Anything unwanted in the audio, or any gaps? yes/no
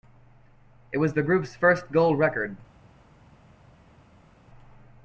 no